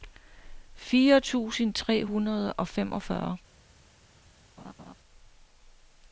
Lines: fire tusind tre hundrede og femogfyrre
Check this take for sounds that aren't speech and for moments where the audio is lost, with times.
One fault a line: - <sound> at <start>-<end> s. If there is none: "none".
- laugh at 4.6-4.9 s